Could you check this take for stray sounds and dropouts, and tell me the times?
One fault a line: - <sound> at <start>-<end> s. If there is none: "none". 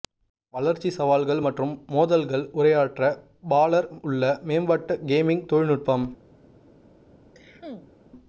- cough at 7.3-7.9 s